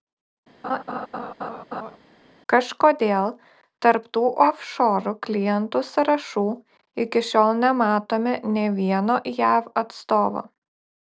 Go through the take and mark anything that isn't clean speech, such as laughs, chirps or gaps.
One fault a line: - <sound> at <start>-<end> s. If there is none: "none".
- laugh at 0.6-2.0 s